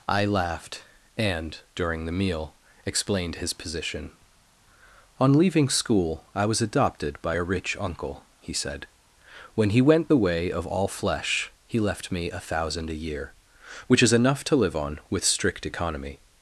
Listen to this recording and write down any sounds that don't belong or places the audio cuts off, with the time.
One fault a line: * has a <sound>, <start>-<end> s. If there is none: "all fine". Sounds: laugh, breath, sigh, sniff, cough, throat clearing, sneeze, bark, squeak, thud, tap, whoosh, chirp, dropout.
all fine